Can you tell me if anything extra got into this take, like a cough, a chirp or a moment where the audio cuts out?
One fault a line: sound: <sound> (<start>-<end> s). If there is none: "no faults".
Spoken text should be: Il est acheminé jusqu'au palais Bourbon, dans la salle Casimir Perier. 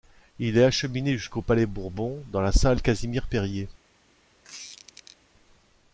sound: squeak (4.4-5.2 s)